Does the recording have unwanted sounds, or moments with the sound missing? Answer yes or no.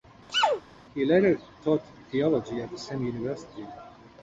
yes